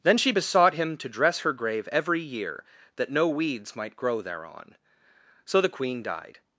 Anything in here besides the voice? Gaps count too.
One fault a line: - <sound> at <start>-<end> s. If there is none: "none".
none